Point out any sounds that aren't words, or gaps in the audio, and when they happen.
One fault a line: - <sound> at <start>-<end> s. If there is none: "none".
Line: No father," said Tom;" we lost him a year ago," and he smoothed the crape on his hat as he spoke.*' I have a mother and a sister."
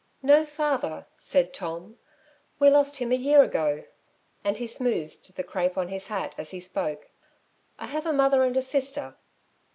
none